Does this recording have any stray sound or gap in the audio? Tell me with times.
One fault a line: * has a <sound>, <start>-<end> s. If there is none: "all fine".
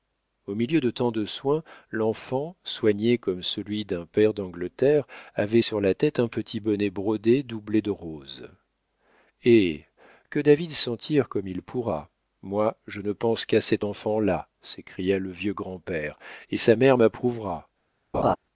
* has a laugh, 18.1-18.4 s